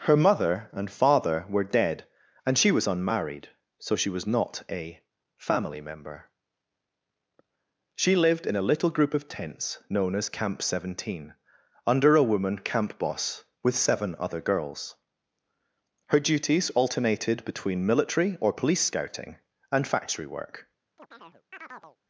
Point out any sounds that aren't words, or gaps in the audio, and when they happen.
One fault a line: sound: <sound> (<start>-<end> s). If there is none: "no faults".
sound: chirp (21.0-22.0 s)